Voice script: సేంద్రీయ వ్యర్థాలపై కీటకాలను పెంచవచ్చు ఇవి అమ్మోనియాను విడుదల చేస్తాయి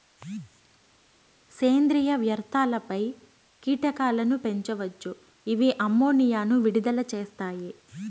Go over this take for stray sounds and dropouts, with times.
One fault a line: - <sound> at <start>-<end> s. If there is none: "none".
none